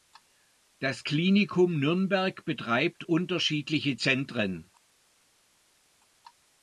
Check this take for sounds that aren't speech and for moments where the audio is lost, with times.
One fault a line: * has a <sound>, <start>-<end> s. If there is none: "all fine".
all fine